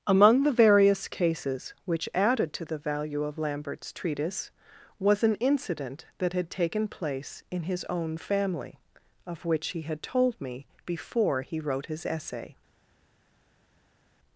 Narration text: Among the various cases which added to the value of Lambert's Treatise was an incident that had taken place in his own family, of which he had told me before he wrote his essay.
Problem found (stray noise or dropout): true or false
false